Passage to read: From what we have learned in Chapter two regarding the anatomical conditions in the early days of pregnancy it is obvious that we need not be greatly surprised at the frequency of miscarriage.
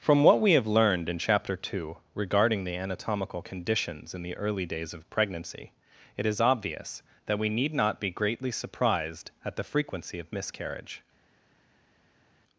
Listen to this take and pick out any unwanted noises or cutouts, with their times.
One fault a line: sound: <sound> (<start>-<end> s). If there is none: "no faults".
no faults